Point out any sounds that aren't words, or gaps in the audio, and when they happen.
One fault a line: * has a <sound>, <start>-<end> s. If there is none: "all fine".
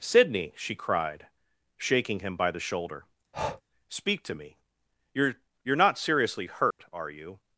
* has a breath, 3.3-3.6 s
* has a dropout, 6.7-6.8 s